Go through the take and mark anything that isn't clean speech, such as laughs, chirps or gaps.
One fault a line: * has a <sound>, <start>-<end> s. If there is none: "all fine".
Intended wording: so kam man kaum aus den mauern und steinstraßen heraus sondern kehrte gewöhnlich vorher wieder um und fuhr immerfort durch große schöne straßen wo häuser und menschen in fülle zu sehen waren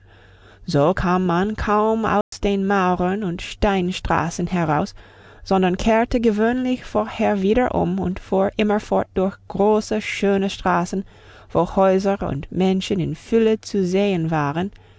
* has a dropout, 2.2-2.3 s